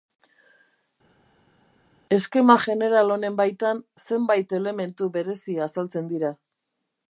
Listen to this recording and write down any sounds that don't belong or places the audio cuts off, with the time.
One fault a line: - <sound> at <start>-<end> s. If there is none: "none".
none